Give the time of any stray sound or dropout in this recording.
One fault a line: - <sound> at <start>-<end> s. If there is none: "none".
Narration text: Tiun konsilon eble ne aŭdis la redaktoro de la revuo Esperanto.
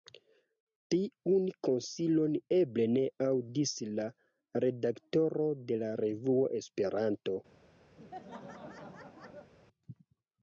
- laugh at 8.0-9.5 s